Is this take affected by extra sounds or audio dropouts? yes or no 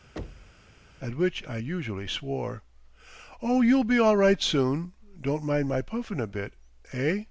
yes